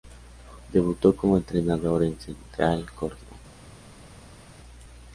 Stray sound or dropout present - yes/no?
no